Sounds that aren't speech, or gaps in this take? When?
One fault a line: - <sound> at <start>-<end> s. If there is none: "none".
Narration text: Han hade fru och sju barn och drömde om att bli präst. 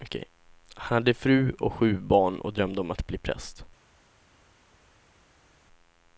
none